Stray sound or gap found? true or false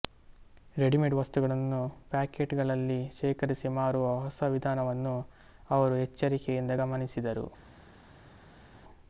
false